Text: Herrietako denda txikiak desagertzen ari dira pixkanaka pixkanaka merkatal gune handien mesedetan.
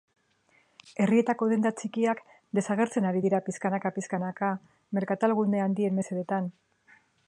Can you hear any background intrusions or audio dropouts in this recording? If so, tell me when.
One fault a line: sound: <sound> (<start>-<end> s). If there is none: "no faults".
no faults